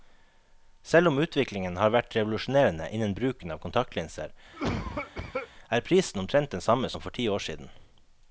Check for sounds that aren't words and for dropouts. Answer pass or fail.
fail